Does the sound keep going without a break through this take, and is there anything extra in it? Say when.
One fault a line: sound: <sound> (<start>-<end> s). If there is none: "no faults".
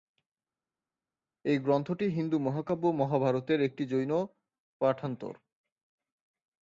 no faults